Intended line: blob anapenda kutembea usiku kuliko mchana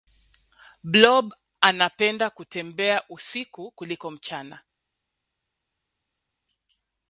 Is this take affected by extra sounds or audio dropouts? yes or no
no